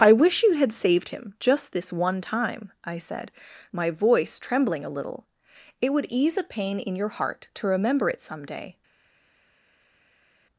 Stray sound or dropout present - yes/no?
no